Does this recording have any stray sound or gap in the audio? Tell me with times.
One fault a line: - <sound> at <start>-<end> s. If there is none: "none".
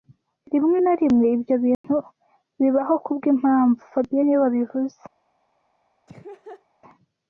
- dropout at 1.7-1.8 s
- laugh at 6.1-6.7 s